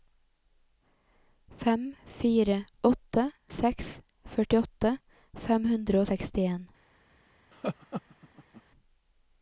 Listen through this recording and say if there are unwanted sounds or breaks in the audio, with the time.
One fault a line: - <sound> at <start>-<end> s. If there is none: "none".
- laugh at 7.5-8.6 s